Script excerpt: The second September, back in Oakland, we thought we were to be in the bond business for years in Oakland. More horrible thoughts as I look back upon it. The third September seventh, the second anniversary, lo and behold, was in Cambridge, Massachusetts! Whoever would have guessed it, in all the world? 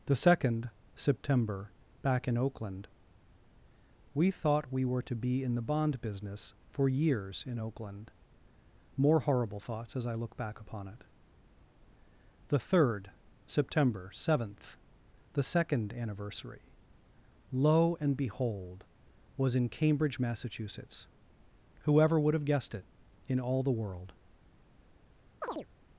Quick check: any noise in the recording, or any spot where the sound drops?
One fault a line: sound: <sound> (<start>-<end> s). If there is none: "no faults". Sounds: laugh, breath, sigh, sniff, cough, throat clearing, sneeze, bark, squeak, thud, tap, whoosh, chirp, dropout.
sound: chirp (25.4-25.7 s)